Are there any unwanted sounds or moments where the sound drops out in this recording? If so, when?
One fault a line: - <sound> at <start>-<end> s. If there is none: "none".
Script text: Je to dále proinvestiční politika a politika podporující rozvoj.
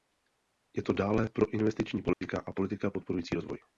- dropout at 2.1-2.2 s